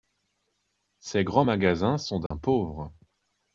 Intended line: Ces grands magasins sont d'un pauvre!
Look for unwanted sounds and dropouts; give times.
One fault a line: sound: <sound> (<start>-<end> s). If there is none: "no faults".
sound: dropout (2.3-2.3 s)